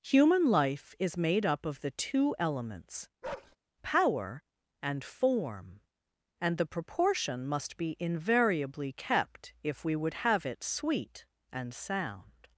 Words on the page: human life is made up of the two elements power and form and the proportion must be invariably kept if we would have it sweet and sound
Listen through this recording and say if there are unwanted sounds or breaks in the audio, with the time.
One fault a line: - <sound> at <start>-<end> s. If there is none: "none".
- bark at 3.2-3.6 s